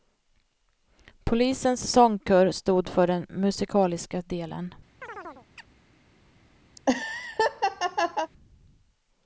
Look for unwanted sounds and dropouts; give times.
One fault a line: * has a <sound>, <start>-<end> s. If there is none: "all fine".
* has a chirp, 5.0-5.7 s
* has a laugh, 6.8-8.3 s